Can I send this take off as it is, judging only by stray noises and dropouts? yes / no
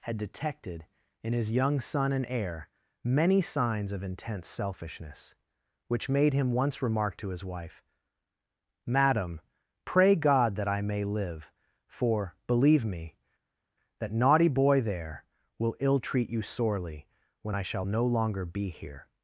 yes